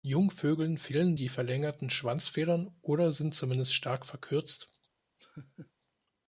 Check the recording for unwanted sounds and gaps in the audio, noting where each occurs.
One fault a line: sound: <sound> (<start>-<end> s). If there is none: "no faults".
sound: laugh (5.2-5.7 s)